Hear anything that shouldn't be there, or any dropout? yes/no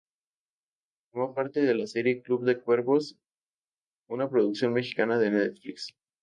no